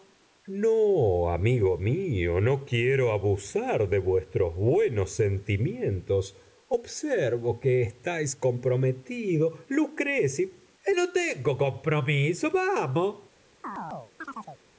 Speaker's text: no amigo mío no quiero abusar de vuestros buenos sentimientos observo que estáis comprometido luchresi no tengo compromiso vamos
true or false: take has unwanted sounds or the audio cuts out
true